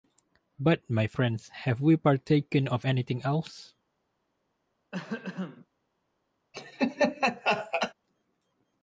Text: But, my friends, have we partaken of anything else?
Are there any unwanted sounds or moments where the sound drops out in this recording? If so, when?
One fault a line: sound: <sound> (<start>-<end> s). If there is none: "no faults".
sound: throat clearing (4.9-5.7 s)
sound: laugh (6.5-7.9 s)